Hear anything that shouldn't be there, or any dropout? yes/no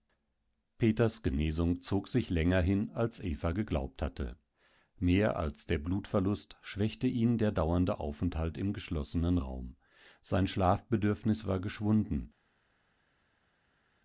no